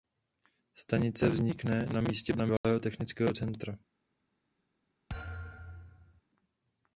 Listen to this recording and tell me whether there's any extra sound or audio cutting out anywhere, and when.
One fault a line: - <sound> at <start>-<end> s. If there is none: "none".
- dropout at 2.6-2.6 s
- thud at 5.1-6.2 s